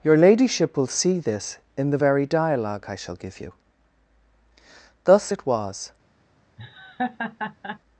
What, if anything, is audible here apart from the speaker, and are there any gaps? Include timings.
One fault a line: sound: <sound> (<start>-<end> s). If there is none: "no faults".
sound: laugh (6.6-7.8 s)